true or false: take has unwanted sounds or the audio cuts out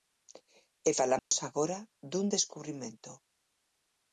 true